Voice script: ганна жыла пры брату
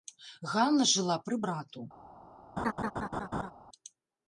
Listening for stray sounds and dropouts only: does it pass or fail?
fail